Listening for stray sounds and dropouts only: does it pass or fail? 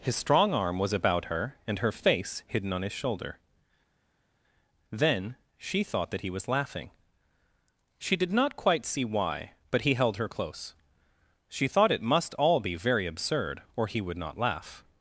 pass